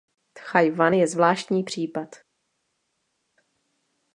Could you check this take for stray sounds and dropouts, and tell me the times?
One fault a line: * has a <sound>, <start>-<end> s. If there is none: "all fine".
all fine